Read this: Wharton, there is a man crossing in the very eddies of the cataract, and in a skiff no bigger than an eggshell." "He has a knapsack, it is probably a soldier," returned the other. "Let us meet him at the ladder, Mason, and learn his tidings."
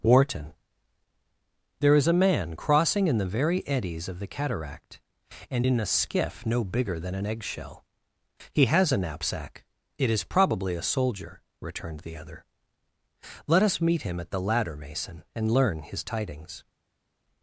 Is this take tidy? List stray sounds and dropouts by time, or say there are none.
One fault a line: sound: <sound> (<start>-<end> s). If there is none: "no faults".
no faults